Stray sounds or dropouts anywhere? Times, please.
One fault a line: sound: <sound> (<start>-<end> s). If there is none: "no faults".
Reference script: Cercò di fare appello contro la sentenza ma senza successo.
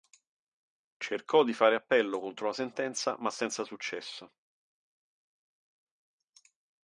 no faults